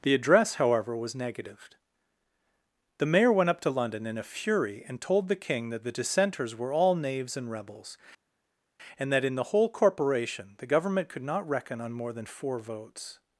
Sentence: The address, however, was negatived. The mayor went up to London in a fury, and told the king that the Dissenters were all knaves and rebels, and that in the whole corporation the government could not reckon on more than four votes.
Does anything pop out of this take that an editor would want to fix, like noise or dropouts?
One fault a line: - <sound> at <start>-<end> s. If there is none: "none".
none